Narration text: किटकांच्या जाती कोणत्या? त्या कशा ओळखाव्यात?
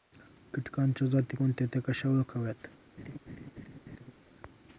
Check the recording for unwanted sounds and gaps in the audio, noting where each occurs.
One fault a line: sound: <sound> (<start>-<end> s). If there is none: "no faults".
sound: laugh (3.0-4.1 s)